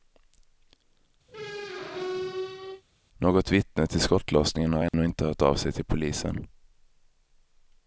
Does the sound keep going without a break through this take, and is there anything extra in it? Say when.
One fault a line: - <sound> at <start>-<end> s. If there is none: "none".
- squeak at 1.3-2.8 s
- dropout at 4.9-4.9 s